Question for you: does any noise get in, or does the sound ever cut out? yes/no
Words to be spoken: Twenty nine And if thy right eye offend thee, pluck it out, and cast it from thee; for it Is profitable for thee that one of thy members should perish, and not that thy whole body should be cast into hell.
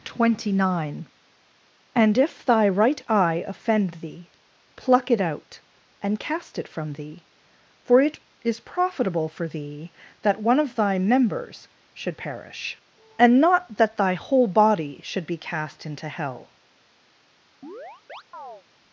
yes